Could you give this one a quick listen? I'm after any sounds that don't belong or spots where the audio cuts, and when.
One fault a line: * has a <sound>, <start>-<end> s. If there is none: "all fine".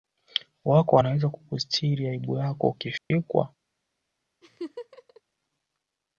* has a dropout, 3.0-3.1 s
* has a laugh, 4.4-5.2 s